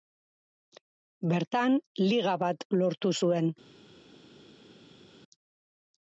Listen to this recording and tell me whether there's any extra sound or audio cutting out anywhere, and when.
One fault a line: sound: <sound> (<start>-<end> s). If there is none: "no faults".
no faults